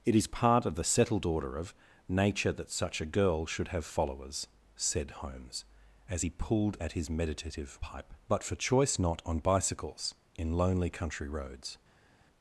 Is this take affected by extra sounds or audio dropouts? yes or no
no